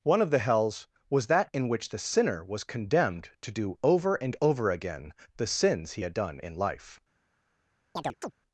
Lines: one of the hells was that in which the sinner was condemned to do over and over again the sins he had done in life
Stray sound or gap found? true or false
true